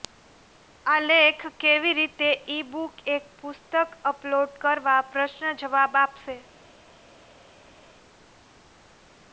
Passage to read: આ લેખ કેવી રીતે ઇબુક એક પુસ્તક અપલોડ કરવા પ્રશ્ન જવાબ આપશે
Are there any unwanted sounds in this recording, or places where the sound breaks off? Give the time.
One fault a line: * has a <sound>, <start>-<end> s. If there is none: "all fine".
all fine